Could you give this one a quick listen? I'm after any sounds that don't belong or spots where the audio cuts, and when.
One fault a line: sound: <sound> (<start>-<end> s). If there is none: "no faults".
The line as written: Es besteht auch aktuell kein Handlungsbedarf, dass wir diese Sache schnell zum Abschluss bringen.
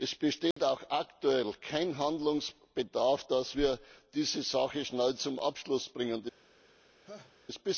sound: dropout (0.5-0.6 s)
sound: laugh (7.0-7.3 s)